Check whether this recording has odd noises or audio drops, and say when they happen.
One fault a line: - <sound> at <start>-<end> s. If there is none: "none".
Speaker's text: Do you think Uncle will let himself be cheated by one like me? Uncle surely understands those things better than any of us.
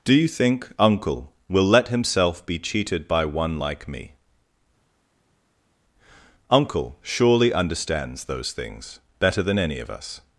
none